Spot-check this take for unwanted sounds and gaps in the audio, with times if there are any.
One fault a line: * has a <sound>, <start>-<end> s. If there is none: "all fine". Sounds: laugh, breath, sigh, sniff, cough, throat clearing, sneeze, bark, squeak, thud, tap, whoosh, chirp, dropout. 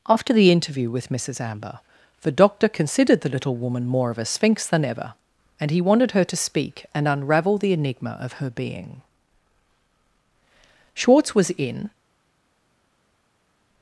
all fine